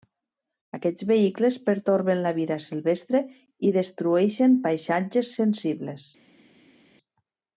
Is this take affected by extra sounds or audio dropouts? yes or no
no